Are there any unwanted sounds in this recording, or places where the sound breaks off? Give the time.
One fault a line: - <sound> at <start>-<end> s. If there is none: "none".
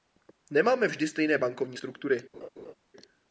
- laugh at 2.3-2.7 s